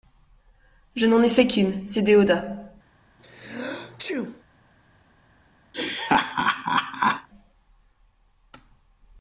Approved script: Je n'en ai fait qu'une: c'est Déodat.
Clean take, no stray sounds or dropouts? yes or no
no